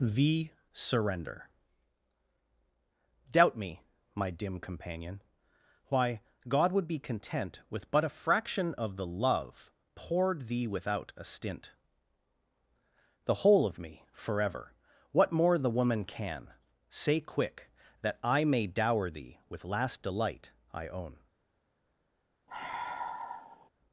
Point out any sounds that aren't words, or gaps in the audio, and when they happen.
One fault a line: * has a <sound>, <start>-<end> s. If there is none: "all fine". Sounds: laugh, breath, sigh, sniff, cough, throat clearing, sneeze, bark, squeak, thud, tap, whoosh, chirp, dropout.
* has a sigh, 22.5-23.7 s